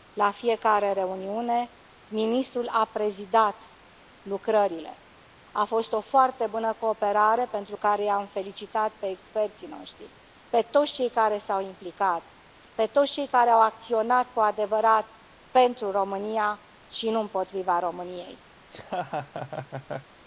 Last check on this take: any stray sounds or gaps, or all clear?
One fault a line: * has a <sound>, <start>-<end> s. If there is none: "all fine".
* has a laugh, 18.6-20.1 s